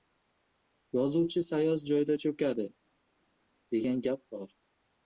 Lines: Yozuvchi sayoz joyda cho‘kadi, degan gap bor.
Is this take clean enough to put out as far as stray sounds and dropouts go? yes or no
yes